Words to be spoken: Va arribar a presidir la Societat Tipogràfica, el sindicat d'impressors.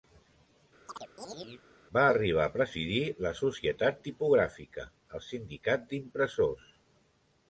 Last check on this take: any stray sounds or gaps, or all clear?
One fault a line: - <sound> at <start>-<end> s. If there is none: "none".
- chirp at 0.9-1.6 s